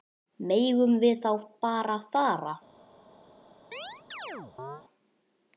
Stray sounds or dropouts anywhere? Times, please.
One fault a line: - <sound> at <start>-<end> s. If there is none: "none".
- chirp at 3.7-4.8 s